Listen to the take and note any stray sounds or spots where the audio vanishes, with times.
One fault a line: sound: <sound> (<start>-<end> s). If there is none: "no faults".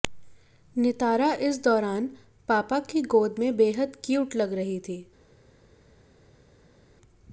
no faults